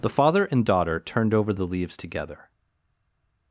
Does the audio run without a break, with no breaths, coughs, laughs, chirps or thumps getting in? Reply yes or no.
yes